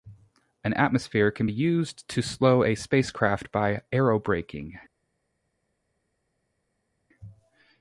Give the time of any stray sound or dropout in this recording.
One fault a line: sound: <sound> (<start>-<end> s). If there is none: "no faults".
no faults